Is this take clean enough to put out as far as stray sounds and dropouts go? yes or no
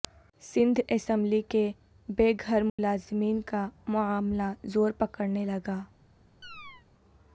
no